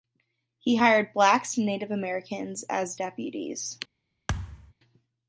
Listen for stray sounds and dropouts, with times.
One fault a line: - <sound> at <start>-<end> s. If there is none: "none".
- thud at 4.3-4.7 s